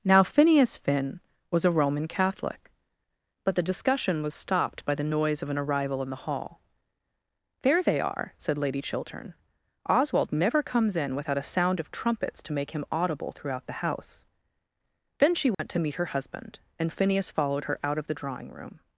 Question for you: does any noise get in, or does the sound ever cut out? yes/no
yes